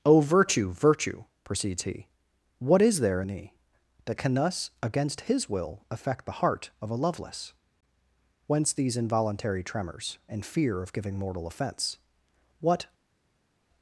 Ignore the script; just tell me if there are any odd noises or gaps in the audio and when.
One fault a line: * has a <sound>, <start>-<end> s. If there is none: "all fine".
all fine